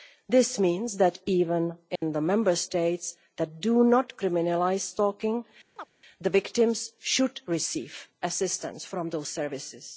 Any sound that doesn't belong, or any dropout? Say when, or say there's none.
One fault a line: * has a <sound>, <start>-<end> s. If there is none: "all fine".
* has a dropout, 2.0-2.0 s
* has a chirp, 5.8-5.9 s